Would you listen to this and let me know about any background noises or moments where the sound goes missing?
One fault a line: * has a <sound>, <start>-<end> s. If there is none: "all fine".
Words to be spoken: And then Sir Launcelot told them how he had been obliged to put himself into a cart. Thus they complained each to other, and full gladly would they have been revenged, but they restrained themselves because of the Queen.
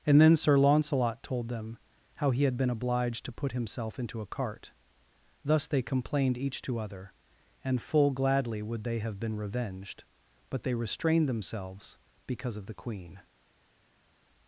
all fine